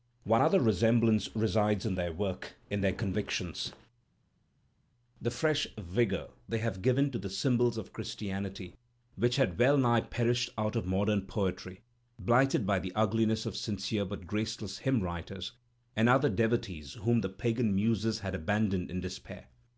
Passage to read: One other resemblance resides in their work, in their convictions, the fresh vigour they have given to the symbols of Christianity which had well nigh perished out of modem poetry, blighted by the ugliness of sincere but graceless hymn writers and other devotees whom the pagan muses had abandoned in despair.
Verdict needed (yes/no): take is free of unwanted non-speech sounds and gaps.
yes